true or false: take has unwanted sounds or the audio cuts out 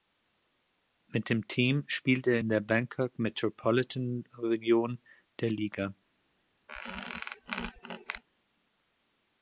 true